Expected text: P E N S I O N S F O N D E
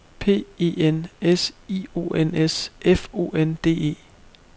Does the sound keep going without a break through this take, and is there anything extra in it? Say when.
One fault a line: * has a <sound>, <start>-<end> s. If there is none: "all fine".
all fine